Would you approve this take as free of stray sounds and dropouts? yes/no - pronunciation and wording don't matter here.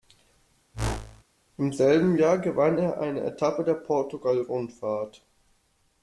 no